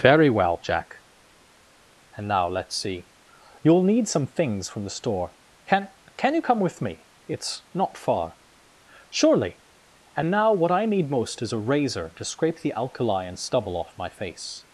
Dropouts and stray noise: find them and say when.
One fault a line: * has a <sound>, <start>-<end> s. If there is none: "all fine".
all fine